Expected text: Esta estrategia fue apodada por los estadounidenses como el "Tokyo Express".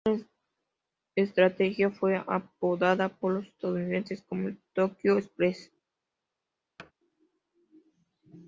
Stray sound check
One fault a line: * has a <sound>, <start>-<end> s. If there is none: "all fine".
* has a thud, 6.8-6.9 s